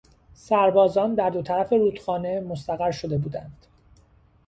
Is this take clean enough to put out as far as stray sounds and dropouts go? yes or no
yes